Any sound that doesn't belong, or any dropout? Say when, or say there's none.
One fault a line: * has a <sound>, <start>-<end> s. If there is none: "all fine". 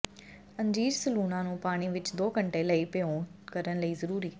all fine